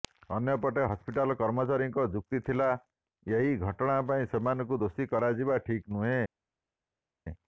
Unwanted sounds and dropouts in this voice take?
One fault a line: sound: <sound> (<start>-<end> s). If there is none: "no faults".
no faults